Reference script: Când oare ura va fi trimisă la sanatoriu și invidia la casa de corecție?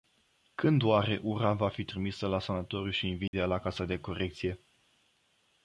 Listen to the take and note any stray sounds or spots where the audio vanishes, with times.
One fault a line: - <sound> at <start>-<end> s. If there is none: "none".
- dropout at 3.3-3.3 s